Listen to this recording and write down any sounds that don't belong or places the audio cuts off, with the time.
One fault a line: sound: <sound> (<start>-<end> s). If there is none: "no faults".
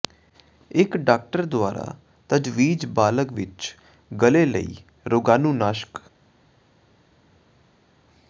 no faults